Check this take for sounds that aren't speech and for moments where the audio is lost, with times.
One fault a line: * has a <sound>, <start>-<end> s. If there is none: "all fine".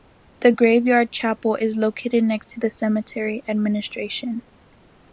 all fine